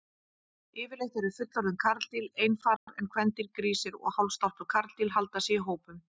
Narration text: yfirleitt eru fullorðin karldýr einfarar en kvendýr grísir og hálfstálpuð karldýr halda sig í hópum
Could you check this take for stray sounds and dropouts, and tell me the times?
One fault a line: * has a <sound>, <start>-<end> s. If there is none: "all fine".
* has a dropout, 2.8-2.9 s